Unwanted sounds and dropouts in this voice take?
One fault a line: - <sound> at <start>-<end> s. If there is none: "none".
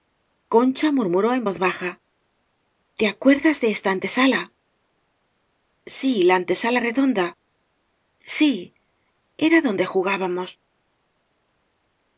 none